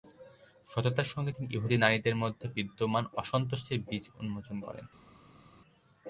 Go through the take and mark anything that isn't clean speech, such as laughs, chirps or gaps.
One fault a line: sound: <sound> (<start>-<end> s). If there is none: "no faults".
no faults